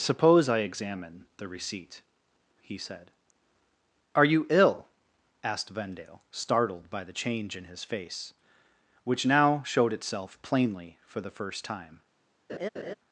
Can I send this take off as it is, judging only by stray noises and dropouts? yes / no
no